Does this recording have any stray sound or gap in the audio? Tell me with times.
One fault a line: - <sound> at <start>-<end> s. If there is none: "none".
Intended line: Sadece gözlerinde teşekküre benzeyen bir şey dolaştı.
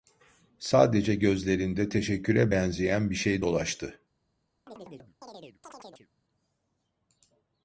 - chirp at 4.7-6.1 s